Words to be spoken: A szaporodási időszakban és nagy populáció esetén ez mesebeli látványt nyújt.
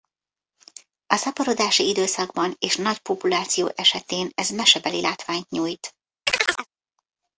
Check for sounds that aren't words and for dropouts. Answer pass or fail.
fail